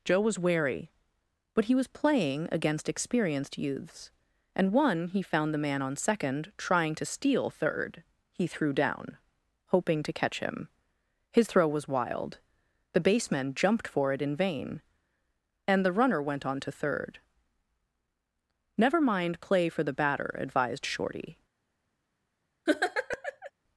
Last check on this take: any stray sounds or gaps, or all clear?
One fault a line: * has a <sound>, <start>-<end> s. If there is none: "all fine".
* has a laugh, 22.7-23.5 s